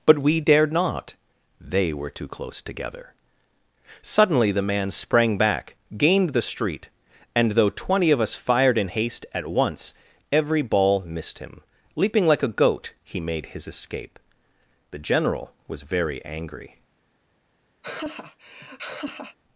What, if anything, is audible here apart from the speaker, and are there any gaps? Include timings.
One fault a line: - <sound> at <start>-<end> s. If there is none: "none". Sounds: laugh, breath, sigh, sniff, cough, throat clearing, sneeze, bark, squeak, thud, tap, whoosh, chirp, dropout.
- laugh at 17.8-19.4 s